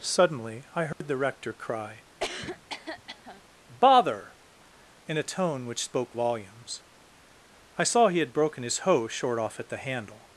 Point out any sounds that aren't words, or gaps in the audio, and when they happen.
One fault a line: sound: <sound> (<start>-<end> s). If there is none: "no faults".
sound: dropout (0.9-1.0 s)
sound: cough (2.2-3.4 s)